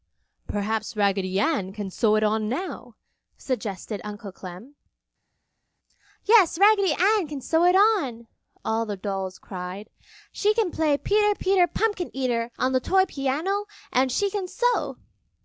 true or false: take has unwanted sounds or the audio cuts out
false